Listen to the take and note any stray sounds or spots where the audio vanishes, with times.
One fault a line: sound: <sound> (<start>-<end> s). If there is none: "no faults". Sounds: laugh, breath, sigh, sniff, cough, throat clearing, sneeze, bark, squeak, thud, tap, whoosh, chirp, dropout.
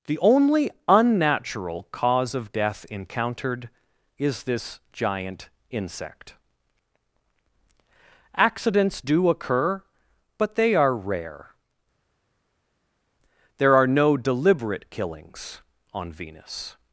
no faults